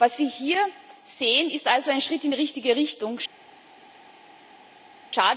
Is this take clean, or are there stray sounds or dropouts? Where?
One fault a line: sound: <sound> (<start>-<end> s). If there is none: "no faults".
no faults